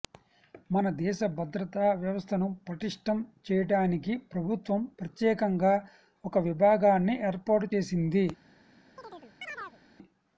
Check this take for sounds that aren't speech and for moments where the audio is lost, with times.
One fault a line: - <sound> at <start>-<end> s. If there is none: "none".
- chirp at 9.0-9.8 s